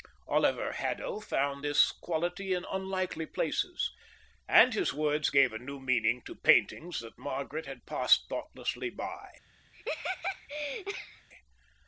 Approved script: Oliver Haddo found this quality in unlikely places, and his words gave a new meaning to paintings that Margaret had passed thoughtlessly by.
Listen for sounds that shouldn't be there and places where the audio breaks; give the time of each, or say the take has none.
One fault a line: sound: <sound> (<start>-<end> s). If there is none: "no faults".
sound: laugh (9.7-11.3 s)